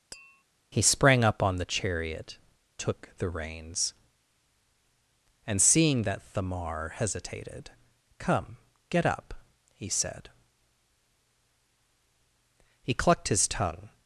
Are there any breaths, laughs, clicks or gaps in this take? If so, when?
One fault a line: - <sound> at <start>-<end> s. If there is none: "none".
- tap at 0.1-0.4 s